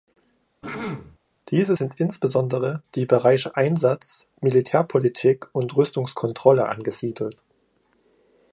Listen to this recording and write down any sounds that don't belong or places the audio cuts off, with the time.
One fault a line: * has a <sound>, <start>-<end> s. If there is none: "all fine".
* has a throat clearing, 0.6-1.2 s